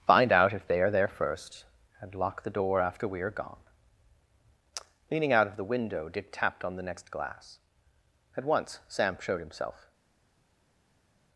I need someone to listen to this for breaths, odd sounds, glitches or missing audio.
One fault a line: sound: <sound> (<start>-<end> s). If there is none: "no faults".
no faults